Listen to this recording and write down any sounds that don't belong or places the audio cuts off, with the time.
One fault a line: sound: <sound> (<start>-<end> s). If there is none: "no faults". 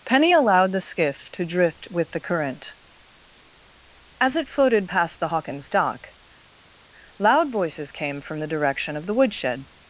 no faults